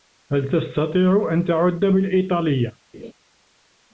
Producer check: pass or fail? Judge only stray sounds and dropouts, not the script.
fail